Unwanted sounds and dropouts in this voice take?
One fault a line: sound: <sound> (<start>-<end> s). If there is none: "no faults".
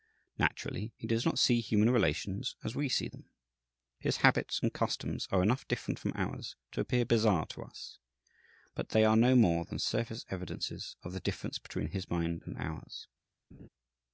sound: laugh (13.5-13.7 s)